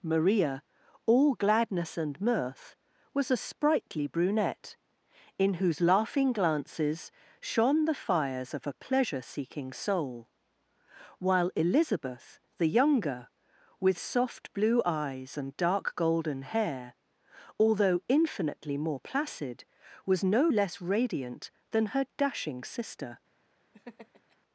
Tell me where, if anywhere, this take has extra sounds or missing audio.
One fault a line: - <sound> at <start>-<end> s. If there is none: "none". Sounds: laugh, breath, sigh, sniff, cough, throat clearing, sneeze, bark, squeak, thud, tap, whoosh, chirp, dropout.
- laugh at 23.7-24.4 s